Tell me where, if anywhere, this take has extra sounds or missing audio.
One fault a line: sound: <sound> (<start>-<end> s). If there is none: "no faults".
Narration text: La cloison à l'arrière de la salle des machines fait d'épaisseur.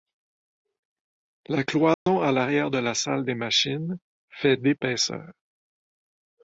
sound: dropout (1.9-2.1 s)